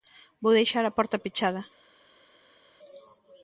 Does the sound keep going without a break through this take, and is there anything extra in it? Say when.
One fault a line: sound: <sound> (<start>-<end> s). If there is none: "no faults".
no faults